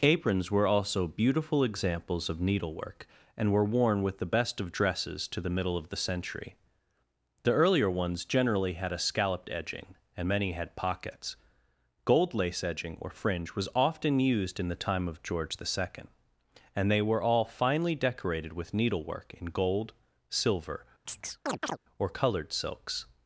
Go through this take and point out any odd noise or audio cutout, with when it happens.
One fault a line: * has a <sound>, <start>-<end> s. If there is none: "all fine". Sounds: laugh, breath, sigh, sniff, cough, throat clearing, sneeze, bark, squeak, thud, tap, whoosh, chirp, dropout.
* has a chirp, 21.1-21.8 s